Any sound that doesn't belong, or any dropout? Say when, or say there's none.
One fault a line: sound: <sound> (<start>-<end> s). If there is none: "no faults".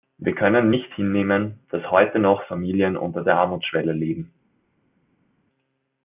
no faults